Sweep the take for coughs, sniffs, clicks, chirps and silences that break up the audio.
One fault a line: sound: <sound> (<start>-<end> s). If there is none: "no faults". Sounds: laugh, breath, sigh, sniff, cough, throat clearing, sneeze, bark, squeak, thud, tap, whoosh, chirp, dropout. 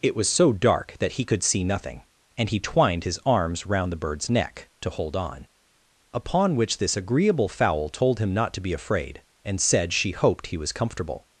no faults